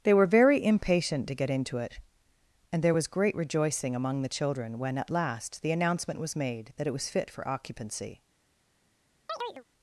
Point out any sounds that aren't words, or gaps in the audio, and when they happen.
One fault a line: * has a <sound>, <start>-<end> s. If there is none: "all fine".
* has a chirp, 9.3-9.6 s